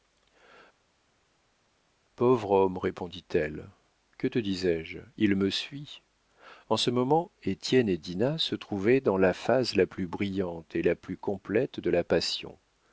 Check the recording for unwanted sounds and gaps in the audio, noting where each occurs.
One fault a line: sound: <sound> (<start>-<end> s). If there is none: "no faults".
no faults